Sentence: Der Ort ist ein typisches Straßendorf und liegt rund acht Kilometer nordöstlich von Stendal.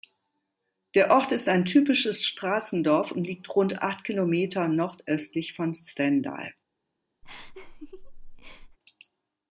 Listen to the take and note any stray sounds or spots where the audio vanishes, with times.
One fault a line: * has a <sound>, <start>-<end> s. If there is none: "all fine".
* has a laugh, 7.2-8.8 s